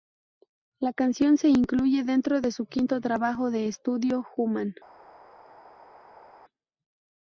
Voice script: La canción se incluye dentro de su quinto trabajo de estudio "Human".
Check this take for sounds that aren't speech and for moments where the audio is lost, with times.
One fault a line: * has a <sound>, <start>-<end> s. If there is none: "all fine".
all fine